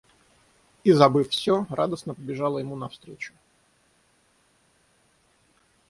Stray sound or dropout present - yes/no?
no